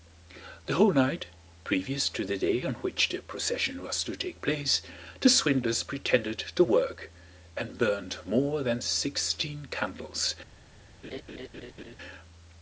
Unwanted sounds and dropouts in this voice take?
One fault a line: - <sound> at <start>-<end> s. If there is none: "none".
- laugh at 11.0-12.0 s